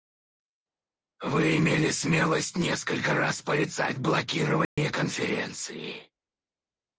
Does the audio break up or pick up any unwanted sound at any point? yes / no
yes